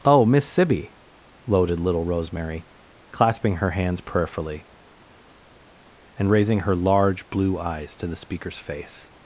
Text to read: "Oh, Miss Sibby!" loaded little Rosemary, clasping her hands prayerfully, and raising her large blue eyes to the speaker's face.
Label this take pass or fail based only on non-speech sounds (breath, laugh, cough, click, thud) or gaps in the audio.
pass